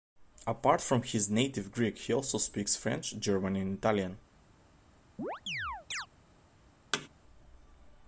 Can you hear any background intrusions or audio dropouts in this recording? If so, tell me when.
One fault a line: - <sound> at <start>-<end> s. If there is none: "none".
- chirp at 5.2-6.1 s
- thud at 6.9-7.1 s